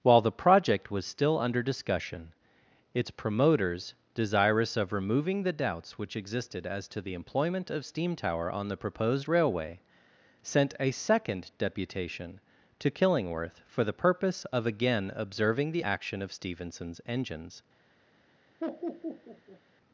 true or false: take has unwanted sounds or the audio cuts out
true